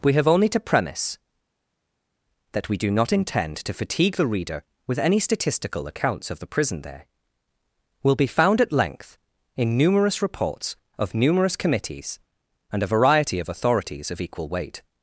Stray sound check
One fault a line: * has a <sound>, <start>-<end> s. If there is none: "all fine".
all fine